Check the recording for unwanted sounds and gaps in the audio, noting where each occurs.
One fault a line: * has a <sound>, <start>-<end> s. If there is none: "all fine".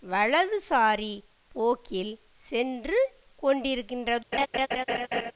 * has a laugh, 4.3-5.3 s